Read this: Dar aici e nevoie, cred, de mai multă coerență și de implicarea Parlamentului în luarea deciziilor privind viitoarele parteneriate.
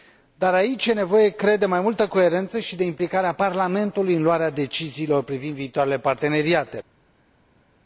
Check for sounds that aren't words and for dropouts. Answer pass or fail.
pass